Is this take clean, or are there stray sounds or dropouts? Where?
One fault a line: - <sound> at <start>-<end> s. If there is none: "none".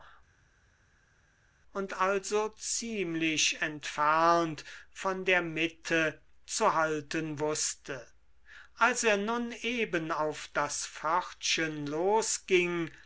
none